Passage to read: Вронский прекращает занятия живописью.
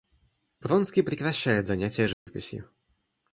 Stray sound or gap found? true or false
true